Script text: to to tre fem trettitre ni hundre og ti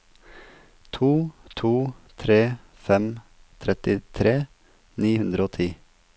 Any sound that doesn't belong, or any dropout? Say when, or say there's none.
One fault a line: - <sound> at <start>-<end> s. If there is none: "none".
none